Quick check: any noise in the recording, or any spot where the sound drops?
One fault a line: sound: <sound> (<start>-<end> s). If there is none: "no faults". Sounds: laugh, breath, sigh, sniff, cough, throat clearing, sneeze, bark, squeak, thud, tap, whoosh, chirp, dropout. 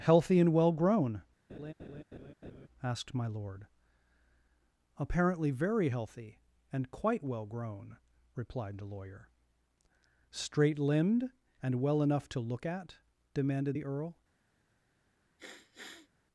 sound: laugh (1.5-2.7 s)
sound: sniff (15.4-16.1 s)